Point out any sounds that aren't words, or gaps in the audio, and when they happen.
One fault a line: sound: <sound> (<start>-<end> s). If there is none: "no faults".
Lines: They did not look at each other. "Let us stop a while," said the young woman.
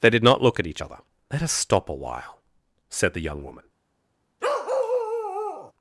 sound: bark (4.4-5.7 s)